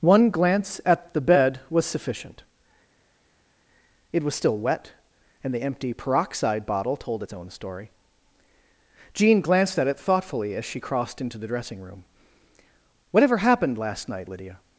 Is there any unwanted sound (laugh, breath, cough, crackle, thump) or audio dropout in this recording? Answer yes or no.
no